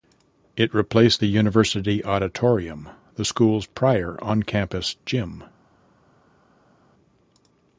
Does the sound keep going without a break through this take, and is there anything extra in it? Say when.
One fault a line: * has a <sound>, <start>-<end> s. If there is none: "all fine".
all fine